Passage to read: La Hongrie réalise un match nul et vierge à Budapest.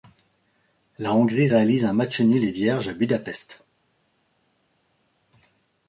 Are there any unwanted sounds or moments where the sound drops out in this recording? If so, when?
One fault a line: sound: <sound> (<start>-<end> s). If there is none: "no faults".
no faults